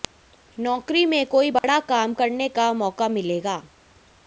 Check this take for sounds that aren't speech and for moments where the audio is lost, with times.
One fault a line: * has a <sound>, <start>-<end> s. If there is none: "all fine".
* has a dropout, 1.6-1.6 s